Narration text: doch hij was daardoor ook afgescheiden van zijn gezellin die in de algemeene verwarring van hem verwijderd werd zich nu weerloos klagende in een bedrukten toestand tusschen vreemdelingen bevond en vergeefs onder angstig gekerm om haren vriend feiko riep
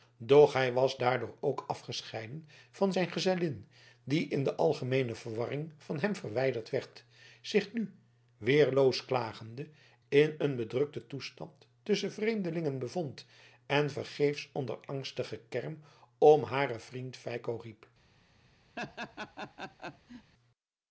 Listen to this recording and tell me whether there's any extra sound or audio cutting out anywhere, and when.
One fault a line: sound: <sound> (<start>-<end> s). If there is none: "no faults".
sound: laugh (18.8-20.3 s)